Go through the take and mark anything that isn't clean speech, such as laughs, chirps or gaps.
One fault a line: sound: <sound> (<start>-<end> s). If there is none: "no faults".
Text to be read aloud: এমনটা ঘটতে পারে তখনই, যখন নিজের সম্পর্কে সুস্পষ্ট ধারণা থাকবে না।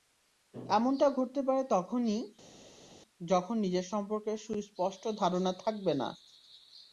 no faults